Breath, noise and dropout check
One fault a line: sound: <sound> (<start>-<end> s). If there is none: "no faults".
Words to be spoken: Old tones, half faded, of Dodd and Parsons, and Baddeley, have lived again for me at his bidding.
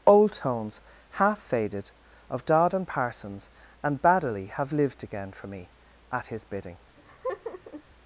sound: laugh (7.0-7.8 s)